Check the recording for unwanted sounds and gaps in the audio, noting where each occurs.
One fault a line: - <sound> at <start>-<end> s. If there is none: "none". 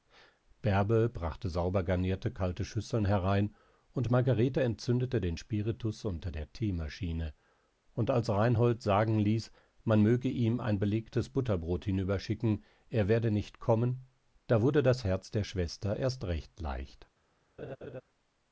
- laugh at 17.6-18.0 s